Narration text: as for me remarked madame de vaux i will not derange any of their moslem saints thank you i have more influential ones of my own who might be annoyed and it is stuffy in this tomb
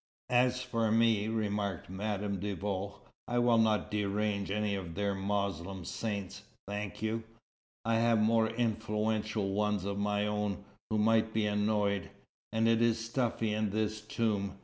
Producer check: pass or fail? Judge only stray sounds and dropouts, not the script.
pass